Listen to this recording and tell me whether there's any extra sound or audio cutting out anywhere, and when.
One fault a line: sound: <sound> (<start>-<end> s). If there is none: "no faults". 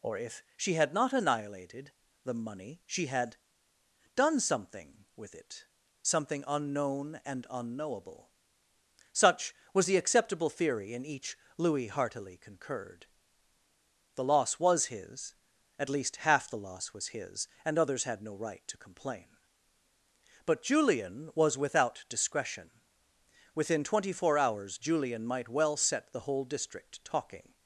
no faults